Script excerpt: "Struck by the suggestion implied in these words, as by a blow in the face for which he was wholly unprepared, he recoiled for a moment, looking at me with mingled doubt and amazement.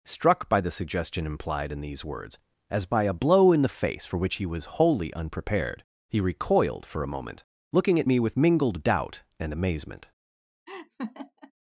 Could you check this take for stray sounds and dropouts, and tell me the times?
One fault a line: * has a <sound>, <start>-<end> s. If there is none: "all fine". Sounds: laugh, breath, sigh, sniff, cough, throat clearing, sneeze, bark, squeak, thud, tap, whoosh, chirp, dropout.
* has a laugh, 10.7-11.5 s